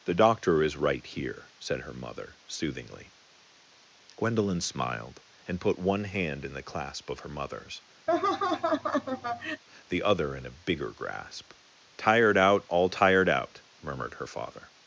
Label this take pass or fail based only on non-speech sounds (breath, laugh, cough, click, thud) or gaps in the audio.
fail